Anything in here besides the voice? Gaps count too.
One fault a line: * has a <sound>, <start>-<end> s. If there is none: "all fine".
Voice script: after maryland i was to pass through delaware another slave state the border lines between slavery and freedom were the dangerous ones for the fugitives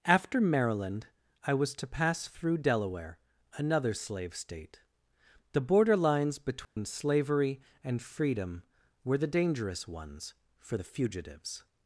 * has a dropout, 6.6-6.8 s